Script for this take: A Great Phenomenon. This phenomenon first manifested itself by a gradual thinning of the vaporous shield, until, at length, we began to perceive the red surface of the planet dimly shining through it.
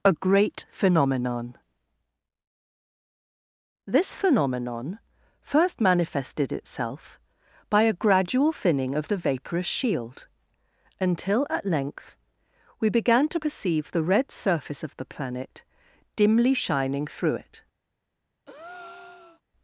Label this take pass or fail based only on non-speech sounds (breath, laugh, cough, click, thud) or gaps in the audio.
fail